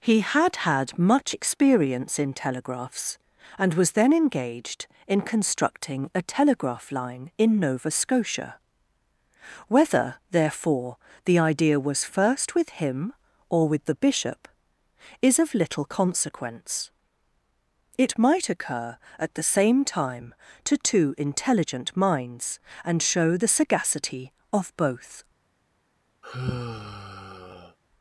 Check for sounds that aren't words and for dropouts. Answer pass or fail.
fail